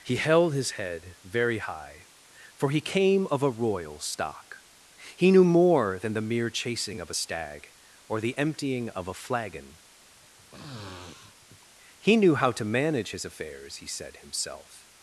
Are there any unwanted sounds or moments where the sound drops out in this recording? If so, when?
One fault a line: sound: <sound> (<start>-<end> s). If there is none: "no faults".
sound: sniff (10.1-11.7 s)